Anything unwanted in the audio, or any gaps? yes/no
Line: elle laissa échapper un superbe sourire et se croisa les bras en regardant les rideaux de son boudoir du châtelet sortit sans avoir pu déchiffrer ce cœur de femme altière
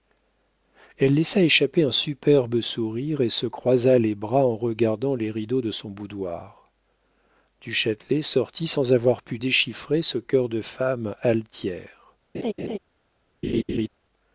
yes